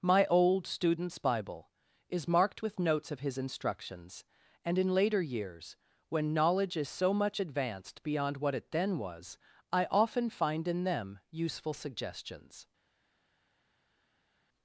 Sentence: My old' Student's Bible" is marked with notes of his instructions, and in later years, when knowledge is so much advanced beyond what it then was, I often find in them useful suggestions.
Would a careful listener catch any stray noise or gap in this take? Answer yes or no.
no